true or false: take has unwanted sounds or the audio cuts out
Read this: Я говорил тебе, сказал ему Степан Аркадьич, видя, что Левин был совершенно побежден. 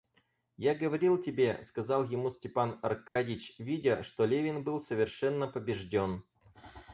true